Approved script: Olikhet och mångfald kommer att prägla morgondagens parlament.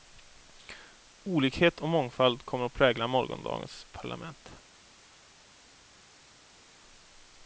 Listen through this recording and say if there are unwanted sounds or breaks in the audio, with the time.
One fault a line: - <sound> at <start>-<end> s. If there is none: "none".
none